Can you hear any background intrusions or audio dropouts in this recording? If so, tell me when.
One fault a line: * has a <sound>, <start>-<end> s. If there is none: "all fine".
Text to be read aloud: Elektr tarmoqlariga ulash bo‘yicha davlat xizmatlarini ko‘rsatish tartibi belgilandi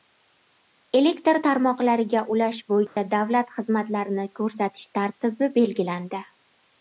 * has a dropout, 2.9-3.0 s